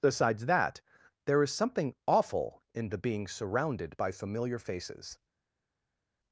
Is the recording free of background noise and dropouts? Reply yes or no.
yes